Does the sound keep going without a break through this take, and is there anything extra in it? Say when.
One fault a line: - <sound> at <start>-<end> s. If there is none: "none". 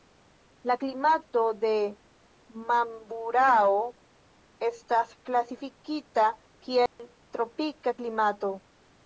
- dropout at 6.9-7.0 s